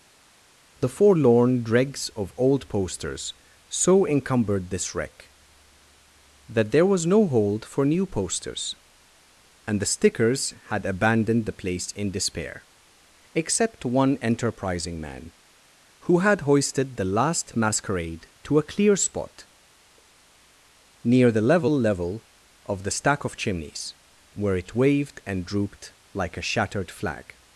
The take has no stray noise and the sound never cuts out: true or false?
true